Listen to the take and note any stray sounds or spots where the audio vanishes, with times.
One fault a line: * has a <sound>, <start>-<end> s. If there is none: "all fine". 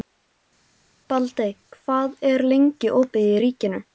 all fine